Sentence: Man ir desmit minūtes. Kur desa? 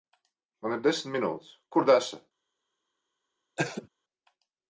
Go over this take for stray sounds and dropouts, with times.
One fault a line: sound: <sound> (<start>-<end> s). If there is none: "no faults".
sound: cough (3.6-3.9 s)